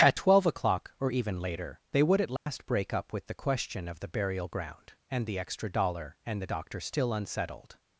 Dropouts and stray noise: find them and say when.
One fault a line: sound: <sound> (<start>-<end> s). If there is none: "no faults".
sound: dropout (2.4-2.5 s)